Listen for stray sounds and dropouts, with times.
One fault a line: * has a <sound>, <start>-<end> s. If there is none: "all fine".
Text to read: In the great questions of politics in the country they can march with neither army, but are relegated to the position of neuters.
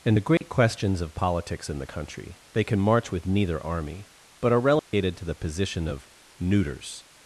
* has a dropout, 0.4-0.4 s
* has a dropout, 4.8-4.9 s